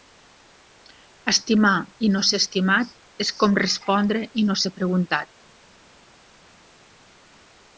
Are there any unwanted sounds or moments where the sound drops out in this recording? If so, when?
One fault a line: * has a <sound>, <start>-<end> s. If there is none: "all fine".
all fine